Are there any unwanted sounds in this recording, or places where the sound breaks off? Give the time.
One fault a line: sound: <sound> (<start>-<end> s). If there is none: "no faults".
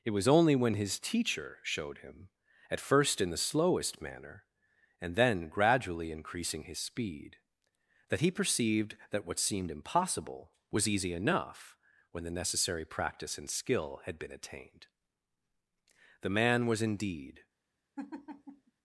sound: laugh (18.0-18.7 s)